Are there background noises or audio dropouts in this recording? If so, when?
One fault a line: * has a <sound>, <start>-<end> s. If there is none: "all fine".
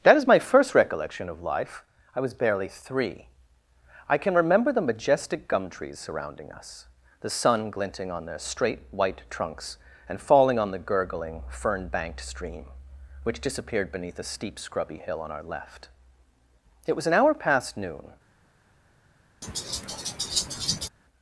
* has a laugh, 19.4-20.9 s